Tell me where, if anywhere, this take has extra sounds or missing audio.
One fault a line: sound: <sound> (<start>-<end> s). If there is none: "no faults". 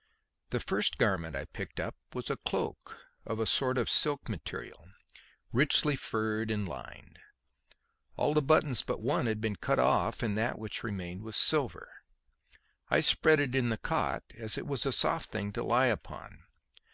no faults